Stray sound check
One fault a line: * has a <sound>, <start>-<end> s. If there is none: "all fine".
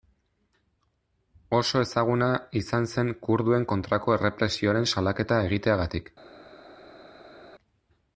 all fine